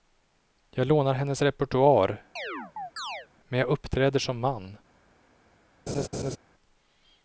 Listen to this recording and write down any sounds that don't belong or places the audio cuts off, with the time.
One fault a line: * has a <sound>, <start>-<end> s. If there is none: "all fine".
* has a chirp, 2.4-3.3 s
* has a laugh, 5.9-6.4 s